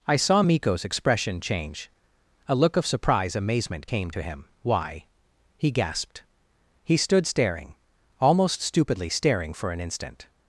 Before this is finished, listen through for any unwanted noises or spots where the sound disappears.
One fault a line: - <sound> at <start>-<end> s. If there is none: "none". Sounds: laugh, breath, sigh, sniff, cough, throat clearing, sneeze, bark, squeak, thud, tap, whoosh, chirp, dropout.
none